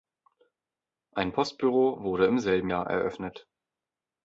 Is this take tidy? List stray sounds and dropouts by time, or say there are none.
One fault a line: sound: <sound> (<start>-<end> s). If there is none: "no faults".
no faults